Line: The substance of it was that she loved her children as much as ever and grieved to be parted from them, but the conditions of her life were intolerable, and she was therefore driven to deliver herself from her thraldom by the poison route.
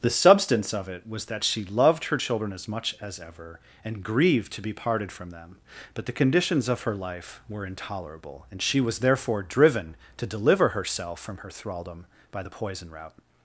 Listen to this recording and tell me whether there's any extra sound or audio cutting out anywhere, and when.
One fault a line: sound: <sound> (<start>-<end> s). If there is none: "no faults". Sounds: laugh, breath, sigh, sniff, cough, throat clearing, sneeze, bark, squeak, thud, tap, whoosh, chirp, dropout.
no faults